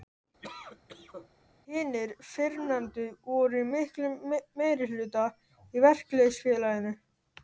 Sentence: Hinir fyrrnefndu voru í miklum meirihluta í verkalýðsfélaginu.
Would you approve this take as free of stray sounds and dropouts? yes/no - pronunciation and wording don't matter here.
no